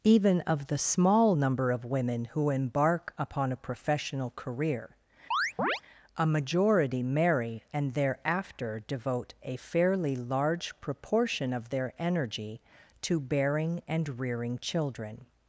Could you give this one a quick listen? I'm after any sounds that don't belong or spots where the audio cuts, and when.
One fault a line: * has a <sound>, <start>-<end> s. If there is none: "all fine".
* has a chirp, 5.3-5.8 s